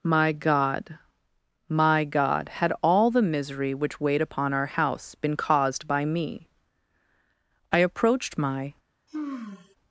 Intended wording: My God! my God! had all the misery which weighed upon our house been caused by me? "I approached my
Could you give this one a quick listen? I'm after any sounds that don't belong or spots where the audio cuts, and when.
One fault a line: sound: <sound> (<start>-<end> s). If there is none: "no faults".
sound: sigh (9.1-9.8 s)